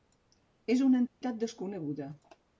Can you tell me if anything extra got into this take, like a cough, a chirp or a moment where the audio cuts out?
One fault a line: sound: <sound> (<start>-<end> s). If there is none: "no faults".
sound: dropout (1.1-1.2 s)